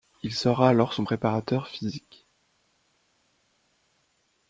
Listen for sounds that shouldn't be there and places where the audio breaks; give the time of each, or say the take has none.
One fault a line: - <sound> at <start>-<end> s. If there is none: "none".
none